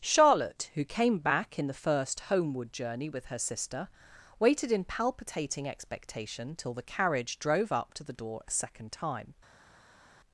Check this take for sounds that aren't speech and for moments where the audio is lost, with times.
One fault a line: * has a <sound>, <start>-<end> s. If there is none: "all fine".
all fine